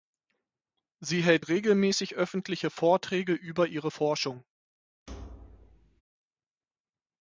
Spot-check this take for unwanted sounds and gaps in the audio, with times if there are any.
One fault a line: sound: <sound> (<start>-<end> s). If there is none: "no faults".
sound: thud (5.1-6.0 s)